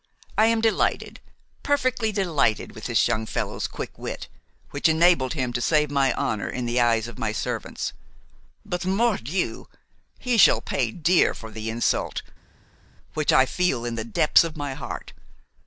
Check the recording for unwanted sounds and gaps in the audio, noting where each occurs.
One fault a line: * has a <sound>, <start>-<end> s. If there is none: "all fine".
all fine